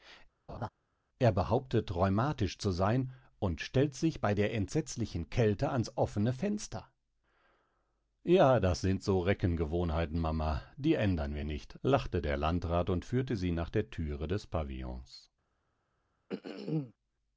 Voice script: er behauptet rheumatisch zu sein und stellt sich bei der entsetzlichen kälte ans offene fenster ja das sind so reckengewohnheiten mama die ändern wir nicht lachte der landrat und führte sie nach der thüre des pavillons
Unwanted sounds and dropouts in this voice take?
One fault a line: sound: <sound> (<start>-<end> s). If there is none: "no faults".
sound: laugh (0.5-0.7 s)
sound: throat clearing (16.3-16.9 s)